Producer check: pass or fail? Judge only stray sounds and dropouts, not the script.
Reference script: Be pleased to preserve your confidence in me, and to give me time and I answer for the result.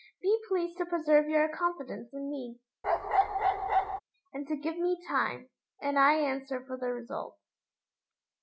fail